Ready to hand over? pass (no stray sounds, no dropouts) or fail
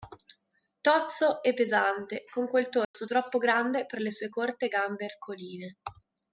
fail